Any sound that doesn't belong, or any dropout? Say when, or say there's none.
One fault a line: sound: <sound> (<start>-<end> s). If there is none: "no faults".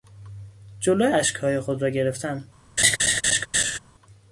sound: laugh (2.8-3.8 s)